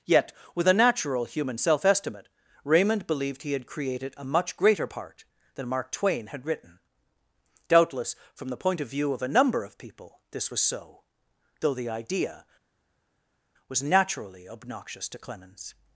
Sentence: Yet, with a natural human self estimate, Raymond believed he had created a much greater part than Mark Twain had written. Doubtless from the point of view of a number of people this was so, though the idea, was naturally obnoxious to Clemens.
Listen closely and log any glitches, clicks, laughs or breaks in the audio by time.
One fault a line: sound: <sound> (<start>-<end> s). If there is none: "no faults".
no faults